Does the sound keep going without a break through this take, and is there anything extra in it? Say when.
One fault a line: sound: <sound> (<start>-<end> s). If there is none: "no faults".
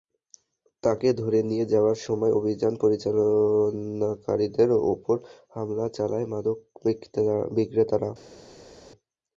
no faults